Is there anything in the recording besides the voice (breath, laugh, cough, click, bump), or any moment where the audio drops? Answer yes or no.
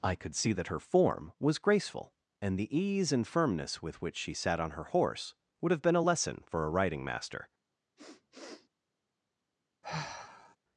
yes